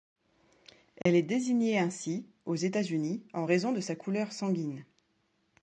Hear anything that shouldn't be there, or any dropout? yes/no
yes